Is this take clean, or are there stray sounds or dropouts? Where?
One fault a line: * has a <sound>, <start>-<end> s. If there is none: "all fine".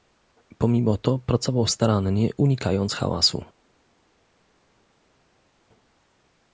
all fine